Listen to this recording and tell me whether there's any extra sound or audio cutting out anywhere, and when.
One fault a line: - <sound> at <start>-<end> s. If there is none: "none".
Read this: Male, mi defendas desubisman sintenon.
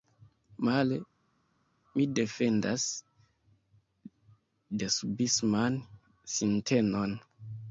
none